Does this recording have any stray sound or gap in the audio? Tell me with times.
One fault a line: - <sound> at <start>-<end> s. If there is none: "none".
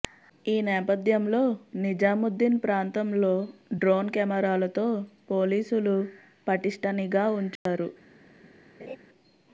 - dropout at 7.6-7.7 s
- laugh at 8.8-9.0 s